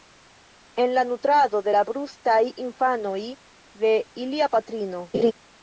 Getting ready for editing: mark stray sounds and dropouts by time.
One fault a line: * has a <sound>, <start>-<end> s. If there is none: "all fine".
* has a laugh, 5.1-5.3 s